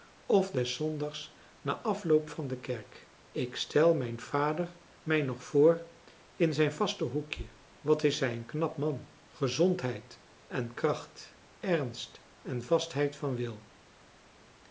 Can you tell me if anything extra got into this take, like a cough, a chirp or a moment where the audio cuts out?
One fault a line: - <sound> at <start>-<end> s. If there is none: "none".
none